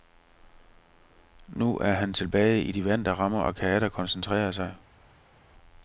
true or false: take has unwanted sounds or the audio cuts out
false